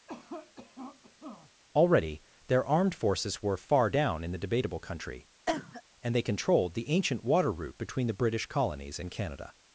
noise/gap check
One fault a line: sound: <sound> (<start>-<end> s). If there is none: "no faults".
sound: cough (0.1-1.5 s)
sound: cough (5.5-5.8 s)